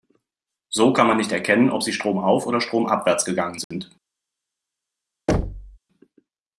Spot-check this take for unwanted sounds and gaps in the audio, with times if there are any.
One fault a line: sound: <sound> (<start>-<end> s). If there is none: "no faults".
sound: dropout (3.6-3.7 s)
sound: thud (5.3-5.8 s)